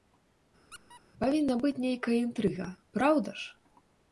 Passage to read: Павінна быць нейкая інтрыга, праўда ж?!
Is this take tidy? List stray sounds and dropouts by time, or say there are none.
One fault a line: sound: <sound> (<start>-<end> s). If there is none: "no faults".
sound: squeak (0.7-1.0 s)